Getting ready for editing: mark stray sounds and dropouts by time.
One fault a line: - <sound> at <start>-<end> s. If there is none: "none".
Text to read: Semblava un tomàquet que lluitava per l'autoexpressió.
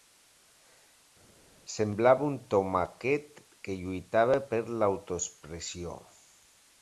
none